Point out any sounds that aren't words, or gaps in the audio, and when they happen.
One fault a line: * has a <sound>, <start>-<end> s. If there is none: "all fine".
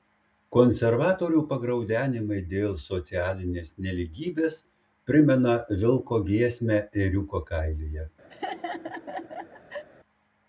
* has a laugh, 8.3-9.8 s